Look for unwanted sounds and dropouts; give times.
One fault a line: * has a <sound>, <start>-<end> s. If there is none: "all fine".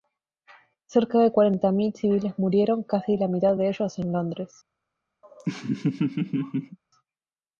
* has a laugh, 5.2-6.8 s